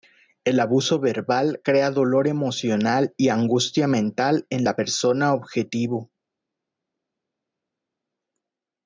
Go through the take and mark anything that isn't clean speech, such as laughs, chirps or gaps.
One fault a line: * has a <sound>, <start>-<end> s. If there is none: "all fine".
all fine